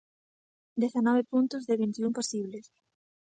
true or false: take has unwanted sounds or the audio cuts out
false